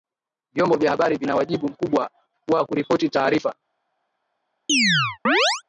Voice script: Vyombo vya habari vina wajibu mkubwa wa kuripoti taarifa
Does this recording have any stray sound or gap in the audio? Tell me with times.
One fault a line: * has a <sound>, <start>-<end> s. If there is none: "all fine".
* has a chirp, 4.7-5.6 s